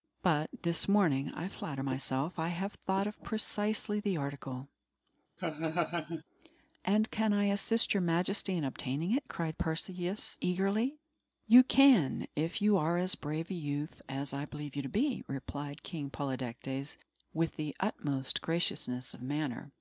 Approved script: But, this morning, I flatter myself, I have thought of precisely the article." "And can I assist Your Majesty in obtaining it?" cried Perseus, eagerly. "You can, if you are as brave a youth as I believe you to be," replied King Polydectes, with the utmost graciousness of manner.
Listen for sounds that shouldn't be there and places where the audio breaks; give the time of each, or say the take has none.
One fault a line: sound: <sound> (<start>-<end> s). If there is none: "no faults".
sound: laugh (5.4-6.2 s)